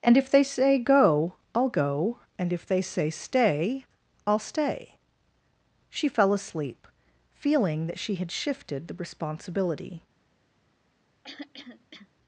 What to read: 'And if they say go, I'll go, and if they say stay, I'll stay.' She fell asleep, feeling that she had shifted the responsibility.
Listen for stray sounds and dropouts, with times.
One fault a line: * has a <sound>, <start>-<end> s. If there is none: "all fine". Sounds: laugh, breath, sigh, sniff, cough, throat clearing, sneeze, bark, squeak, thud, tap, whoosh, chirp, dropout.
* has a throat clearing, 11.2-12.1 s